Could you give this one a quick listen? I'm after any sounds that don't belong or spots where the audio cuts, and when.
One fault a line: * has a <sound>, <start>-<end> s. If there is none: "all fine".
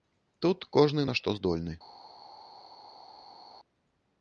all fine